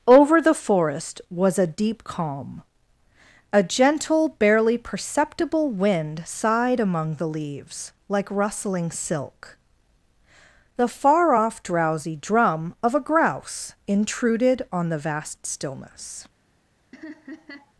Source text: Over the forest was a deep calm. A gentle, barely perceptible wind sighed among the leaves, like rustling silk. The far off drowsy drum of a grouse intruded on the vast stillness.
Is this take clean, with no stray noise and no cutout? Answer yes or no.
no